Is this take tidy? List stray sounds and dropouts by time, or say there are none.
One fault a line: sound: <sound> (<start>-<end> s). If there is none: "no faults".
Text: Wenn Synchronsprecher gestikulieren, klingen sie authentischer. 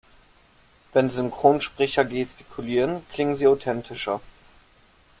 no faults